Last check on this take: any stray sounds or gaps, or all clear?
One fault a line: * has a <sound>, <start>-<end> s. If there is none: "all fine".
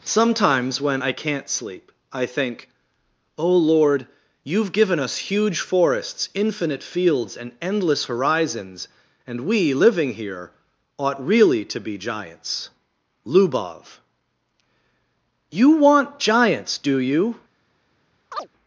* has a chirp, 18.3-18.5 s